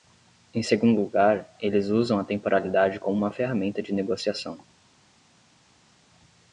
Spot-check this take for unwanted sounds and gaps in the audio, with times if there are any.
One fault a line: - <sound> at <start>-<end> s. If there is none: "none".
none